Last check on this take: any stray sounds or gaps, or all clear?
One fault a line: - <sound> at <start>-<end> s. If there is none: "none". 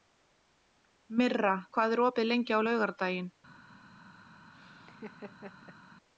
- laugh at 4.5-5.8 s